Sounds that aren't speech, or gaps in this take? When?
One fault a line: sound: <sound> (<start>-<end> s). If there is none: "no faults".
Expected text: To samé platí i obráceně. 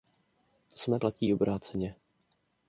no faults